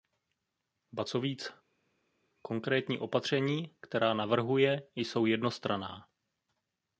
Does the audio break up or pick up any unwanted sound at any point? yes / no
no